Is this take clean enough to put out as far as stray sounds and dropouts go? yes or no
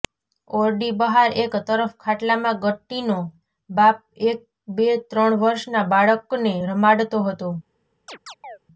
no